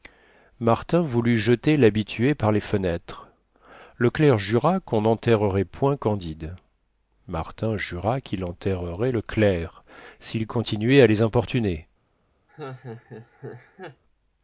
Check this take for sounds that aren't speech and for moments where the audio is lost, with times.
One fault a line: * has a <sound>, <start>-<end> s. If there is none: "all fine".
* has a laugh, 12.5-14.0 s